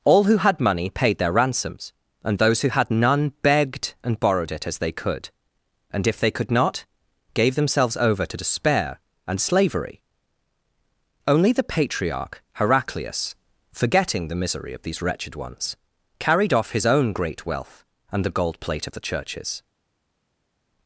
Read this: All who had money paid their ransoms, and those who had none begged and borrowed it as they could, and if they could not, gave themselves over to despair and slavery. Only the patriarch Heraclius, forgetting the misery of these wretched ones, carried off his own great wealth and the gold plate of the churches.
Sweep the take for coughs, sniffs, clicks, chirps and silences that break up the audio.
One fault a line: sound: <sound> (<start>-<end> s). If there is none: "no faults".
no faults